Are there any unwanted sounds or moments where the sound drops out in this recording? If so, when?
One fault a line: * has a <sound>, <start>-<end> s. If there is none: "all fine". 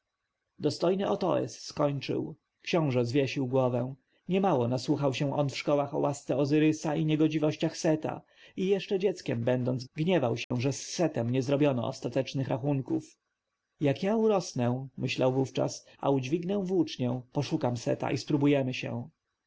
* has a dropout, 10.4-10.5 s